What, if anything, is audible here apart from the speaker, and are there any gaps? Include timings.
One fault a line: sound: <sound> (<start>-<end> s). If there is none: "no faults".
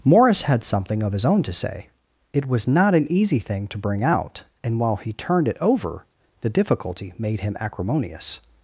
no faults